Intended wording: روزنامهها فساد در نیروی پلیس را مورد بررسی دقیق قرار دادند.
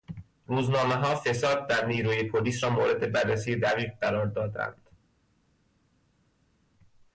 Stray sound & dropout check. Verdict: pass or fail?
pass